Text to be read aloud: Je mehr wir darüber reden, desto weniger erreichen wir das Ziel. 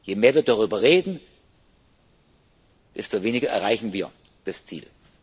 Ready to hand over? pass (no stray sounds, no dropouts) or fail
pass